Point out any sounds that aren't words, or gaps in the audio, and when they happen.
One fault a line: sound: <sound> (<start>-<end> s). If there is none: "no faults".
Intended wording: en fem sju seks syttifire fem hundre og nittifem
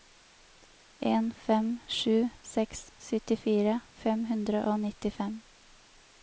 no faults